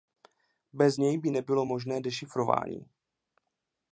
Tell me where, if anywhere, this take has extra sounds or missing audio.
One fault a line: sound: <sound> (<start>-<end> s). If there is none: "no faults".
no faults